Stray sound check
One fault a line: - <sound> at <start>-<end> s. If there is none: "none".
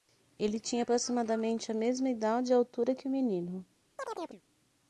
- chirp at 4.0-4.4 s